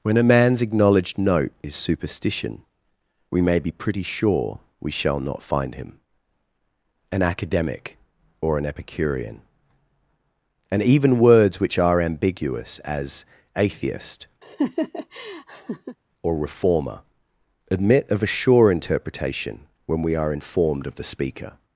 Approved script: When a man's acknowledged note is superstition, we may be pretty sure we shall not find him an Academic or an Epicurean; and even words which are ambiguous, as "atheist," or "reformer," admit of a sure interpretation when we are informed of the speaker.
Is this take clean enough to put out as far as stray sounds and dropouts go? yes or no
no